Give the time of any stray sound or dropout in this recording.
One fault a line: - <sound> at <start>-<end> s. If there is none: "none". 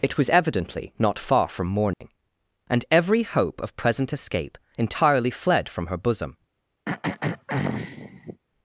- dropout at 1.9-2.0 s
- throat clearing at 6.9-8.4 s